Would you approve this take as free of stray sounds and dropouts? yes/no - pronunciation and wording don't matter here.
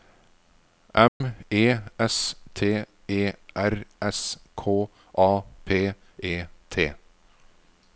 no